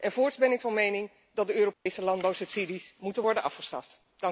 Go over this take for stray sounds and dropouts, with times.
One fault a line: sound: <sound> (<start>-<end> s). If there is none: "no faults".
sound: dropout (1.7-1.9 s)